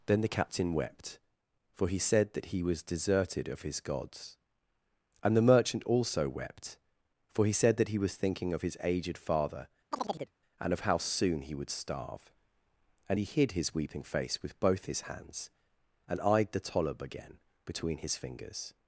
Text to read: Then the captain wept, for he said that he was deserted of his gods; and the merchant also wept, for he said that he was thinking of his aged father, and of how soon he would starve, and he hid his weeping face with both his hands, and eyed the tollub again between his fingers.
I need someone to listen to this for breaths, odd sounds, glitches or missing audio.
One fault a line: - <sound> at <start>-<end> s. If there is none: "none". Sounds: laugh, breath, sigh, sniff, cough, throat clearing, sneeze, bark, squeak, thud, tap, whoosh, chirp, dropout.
- chirp at 9.9-10.3 s